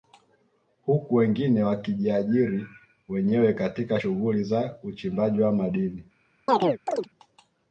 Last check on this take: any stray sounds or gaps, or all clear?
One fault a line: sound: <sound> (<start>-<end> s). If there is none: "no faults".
sound: chirp (6.5-7.1 s)